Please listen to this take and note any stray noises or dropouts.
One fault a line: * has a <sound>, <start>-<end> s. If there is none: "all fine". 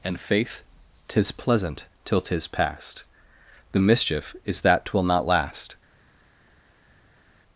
all fine